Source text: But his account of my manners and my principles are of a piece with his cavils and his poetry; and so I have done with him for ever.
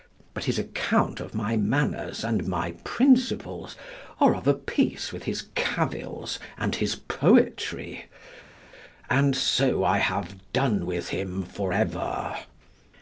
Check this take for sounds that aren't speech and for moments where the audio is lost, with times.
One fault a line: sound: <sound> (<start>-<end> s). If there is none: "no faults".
no faults